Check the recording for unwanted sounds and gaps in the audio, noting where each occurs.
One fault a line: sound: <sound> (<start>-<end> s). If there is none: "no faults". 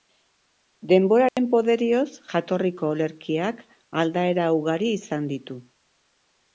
sound: dropout (1.3-1.4 s)